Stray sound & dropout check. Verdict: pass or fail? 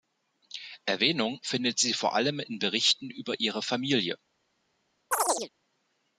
fail